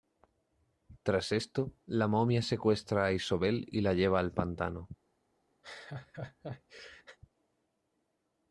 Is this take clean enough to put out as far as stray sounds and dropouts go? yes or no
no